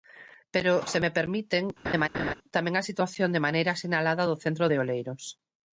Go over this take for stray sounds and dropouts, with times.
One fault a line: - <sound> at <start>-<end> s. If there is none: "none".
- laugh at 1.8-2.3 s